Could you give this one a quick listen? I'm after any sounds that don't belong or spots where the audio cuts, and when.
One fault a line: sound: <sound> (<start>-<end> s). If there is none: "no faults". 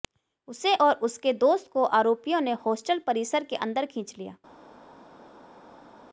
no faults